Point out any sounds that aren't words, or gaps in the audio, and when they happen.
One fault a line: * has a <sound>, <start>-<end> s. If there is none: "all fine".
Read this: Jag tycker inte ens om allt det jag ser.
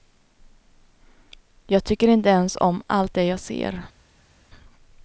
all fine